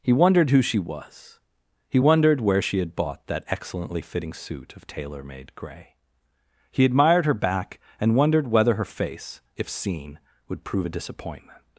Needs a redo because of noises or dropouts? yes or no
no